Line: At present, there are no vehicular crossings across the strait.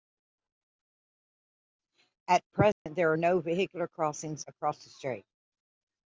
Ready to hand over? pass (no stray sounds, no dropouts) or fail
fail